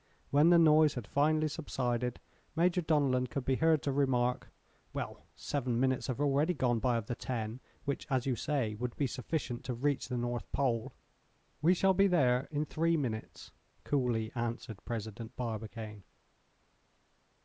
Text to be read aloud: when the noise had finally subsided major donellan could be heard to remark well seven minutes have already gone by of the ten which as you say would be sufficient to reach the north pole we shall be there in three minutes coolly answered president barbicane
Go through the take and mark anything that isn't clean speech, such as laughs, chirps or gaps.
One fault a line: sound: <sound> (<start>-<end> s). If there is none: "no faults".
no faults